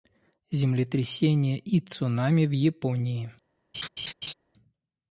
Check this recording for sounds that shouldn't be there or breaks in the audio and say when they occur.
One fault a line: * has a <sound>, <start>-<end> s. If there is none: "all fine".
* has a laugh, 3.7-4.3 s